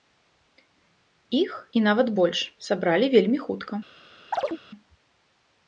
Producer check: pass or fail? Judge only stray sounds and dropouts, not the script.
fail